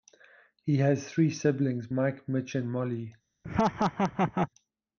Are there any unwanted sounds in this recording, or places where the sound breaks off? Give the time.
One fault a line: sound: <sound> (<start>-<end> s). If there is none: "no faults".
sound: laugh (3.4-4.5 s)